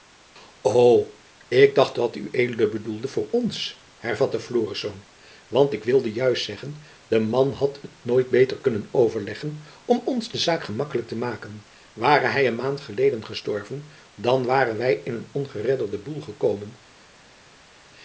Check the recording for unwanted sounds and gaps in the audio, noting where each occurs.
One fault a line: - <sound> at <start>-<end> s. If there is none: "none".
none